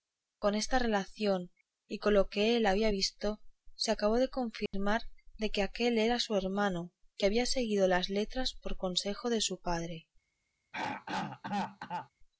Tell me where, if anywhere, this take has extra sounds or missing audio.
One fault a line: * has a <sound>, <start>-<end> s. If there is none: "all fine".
* has a dropout, 4.7-4.7 s
* has a throat clearing, 10.7-12.1 s